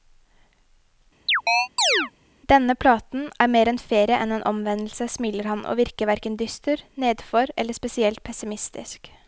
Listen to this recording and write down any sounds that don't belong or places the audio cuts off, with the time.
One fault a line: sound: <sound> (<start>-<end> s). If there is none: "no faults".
sound: chirp (1.3-2.1 s)